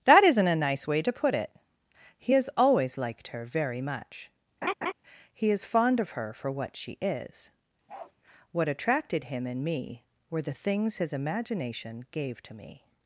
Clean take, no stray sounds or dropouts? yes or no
no